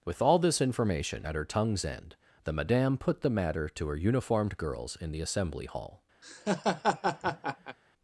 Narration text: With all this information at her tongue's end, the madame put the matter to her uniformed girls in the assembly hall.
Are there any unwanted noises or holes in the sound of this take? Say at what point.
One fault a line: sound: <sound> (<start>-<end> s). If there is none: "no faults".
sound: laugh (6.2-7.8 s)